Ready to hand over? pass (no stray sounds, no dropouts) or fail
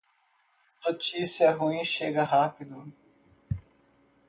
pass